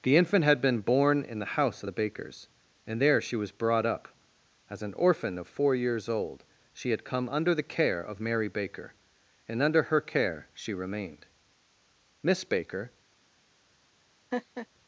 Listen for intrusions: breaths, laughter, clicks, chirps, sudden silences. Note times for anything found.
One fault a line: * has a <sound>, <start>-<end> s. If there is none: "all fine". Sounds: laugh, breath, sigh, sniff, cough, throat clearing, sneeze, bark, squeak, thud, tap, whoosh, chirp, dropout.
* has a laugh, 14.3-14.7 s